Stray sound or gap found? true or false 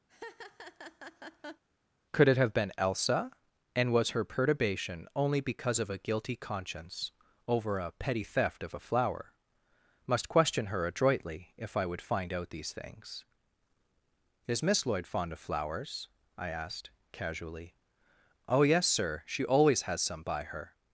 true